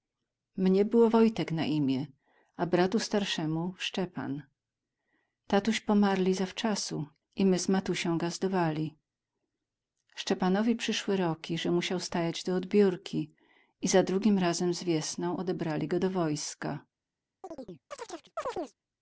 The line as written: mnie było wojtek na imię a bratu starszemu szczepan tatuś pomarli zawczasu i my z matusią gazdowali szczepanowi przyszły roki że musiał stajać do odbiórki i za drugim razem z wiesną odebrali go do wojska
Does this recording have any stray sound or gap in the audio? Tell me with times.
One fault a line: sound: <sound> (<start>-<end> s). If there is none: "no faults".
sound: chirp (17.4-18.8 s)